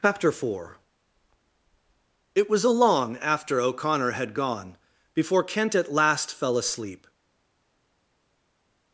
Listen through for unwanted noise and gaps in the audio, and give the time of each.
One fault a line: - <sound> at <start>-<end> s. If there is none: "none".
none